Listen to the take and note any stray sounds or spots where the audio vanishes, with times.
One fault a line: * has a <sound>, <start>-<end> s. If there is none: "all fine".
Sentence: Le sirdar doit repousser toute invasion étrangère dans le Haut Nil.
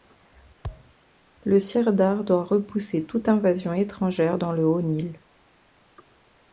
* has a thud, 0.6-0.9 s